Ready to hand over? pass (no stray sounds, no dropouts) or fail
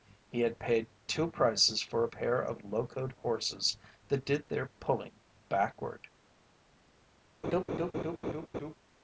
fail